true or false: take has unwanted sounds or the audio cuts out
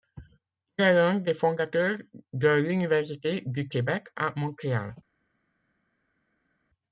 false